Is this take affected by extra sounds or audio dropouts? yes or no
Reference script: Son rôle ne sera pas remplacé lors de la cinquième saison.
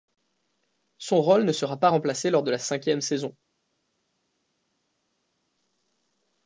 no